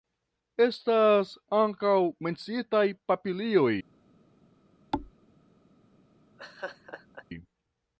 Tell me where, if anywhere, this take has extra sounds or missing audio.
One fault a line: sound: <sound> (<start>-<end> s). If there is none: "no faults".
sound: thud (4.9-5.1 s)
sound: laugh (6.4-7.2 s)